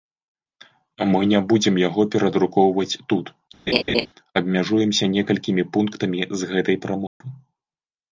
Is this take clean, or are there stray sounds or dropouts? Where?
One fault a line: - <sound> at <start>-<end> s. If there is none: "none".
- laugh at 3.7-4.1 s
- dropout at 7.1-7.2 s